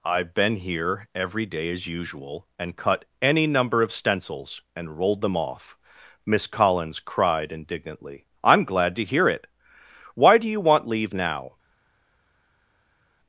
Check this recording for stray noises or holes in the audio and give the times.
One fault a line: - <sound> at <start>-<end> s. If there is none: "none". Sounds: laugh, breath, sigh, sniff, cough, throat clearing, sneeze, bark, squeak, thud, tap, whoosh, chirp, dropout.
none